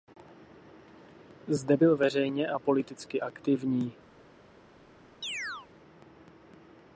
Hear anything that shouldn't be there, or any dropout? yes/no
yes